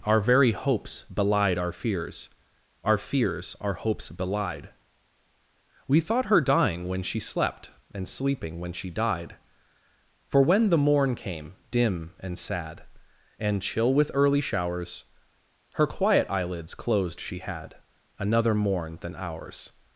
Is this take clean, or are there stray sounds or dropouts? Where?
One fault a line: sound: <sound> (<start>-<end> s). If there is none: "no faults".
no faults